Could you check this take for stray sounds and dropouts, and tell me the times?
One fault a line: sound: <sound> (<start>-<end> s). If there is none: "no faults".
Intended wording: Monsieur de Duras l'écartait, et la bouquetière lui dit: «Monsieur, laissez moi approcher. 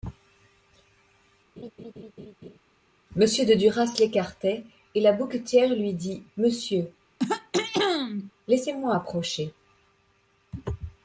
sound: laugh (1.6-2.6 s)
sound: throat clearing (7.2-8.3 s)